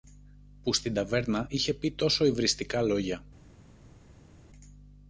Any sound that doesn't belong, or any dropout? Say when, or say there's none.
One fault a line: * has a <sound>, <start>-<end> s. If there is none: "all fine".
all fine